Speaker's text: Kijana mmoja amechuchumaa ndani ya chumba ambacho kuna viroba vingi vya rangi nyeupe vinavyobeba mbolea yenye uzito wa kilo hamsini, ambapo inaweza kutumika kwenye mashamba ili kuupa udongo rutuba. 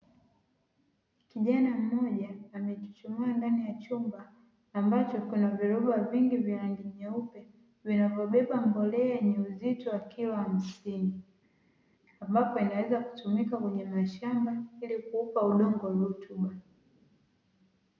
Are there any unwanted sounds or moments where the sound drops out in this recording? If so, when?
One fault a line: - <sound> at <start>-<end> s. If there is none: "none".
none